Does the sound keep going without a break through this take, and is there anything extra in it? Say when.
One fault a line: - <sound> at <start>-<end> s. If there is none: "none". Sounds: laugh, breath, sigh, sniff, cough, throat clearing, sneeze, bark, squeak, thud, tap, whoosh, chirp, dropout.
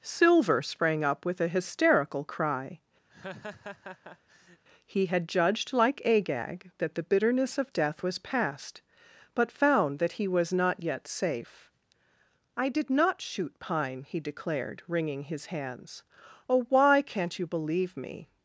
- laugh at 3.1-4.6 s